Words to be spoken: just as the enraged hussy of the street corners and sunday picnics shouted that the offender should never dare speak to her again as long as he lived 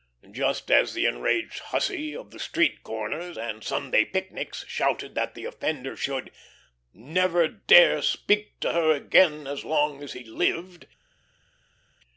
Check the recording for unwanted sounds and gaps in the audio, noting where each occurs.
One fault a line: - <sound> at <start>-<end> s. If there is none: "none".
none